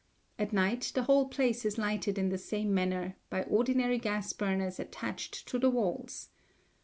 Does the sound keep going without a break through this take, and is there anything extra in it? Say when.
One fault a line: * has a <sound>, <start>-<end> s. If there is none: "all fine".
all fine